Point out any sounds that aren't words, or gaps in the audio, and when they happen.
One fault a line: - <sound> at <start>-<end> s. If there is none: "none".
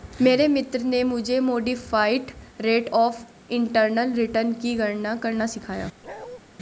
- bark at 6.0-6.4 s